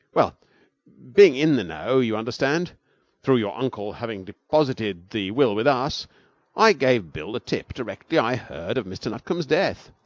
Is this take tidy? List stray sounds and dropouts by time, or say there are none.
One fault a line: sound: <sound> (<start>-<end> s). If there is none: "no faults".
no faults